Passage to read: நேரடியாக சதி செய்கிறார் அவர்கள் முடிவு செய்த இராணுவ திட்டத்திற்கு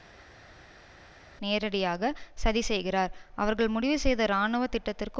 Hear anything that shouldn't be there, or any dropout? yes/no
no